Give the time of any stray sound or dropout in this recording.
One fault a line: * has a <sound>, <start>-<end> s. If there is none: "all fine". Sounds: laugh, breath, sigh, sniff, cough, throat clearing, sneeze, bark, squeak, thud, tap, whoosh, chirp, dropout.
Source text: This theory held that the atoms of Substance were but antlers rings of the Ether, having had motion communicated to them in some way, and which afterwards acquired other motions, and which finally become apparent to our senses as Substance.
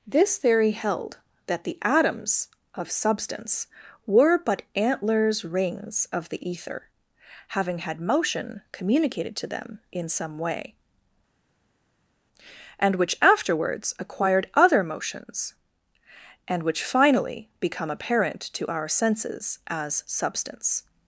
all fine